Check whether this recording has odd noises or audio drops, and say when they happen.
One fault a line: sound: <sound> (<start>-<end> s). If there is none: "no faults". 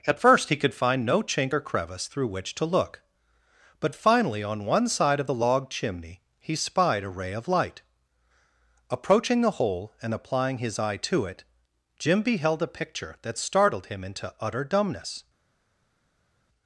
no faults